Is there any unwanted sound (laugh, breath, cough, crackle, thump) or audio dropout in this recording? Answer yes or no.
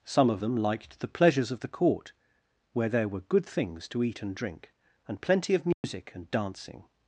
yes